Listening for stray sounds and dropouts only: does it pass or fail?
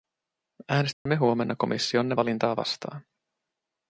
fail